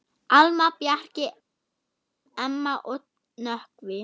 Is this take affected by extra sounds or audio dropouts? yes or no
no